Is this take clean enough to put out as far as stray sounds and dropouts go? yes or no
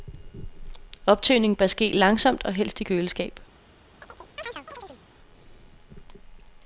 no